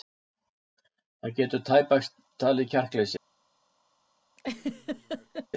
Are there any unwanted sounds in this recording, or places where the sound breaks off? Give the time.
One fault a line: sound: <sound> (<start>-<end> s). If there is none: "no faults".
sound: laugh (4.4-5.5 s)